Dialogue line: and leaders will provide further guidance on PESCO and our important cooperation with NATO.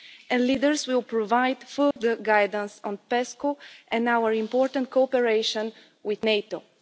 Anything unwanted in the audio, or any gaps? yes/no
yes